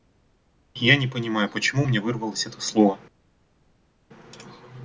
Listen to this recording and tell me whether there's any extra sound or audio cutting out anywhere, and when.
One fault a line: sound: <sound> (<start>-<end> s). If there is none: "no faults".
no faults